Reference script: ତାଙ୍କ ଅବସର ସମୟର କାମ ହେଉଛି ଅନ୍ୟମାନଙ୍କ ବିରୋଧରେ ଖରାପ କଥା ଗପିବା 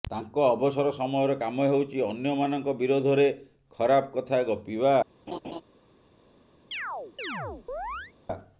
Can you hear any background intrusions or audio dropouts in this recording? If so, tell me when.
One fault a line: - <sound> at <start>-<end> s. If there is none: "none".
- laugh at 5.3-5.6 s
- chirp at 6.7-8.1 s